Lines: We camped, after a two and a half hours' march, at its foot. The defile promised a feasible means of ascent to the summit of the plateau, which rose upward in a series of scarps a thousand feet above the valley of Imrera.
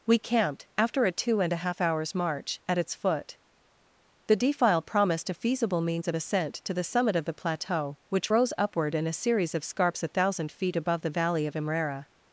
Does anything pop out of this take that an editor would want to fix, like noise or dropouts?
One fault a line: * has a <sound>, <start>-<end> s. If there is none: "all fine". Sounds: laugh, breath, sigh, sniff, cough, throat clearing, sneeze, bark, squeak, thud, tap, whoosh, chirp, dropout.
all fine